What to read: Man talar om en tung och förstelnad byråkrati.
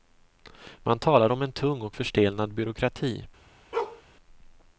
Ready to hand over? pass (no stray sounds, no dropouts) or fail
fail